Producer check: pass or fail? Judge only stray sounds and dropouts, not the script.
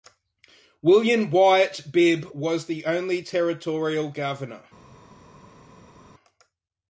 pass